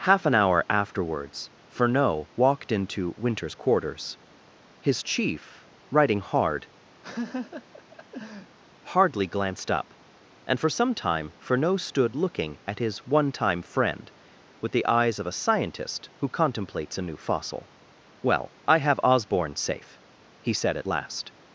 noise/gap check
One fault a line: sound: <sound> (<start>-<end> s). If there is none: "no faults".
sound: laugh (7.0-8.6 s)